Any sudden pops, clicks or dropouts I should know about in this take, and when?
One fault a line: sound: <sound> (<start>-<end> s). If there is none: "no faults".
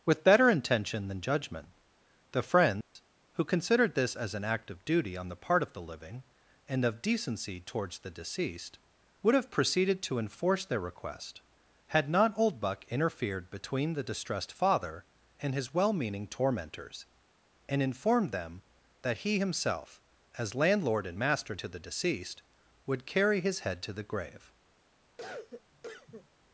sound: dropout (2.8-3.0 s)
sound: cough (25.2-26.3 s)